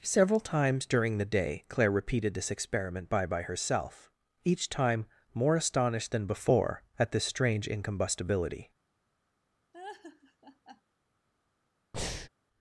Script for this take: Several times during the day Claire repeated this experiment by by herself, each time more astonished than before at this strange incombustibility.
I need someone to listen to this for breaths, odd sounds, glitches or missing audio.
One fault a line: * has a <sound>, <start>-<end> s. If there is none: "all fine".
* has a laugh, 9.7-10.8 s
* has a breath, 11.9-12.3 s